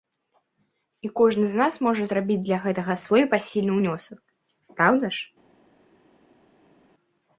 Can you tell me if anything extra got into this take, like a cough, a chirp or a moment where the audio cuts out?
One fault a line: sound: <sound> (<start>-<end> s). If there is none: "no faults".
no faults